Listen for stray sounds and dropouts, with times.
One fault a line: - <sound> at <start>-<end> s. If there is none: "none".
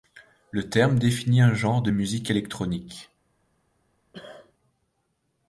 - cough at 4.1-4.5 s